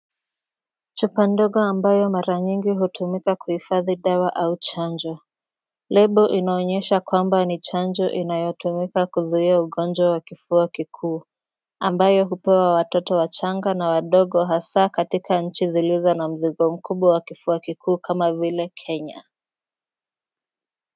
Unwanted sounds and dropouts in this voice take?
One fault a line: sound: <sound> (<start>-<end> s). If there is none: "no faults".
no faults